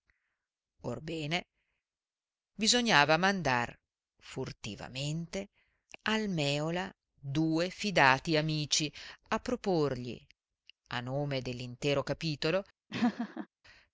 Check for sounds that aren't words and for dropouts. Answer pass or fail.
fail